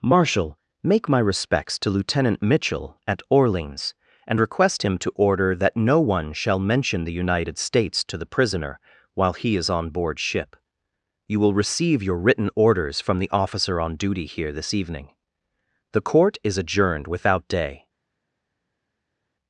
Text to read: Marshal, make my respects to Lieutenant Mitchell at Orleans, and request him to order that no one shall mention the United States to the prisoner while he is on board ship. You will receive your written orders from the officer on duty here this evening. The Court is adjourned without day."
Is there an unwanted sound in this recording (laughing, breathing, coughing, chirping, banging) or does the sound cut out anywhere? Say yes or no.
no